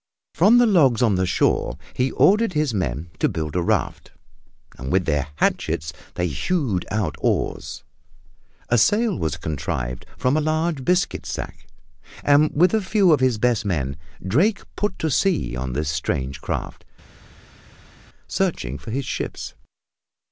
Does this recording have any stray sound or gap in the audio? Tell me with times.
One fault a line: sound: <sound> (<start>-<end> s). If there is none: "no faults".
no faults